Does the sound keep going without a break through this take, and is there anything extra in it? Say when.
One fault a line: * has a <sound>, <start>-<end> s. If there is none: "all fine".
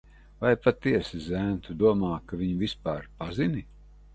all fine